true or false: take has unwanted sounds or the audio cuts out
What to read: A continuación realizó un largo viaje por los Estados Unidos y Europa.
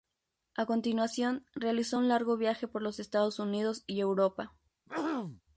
true